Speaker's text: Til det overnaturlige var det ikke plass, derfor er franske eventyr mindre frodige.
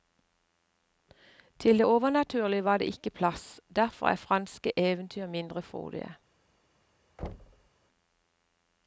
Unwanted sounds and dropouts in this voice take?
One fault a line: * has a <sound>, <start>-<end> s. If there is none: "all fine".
* has a thud, 7.2-7.7 s